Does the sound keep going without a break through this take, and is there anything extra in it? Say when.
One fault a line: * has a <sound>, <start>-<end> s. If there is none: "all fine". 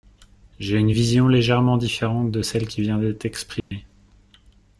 * has a dropout, 3.6-3.7 s